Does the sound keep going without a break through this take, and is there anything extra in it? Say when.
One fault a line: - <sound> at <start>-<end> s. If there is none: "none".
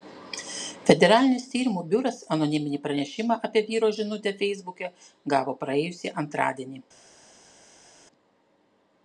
none